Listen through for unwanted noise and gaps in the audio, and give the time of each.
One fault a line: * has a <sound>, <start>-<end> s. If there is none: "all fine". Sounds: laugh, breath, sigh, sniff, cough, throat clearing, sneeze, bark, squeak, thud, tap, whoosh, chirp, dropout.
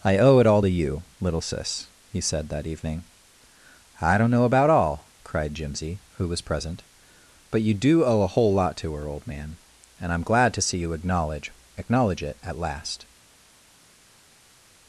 all fine